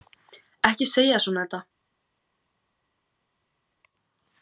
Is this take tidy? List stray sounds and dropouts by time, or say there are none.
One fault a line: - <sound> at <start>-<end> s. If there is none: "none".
none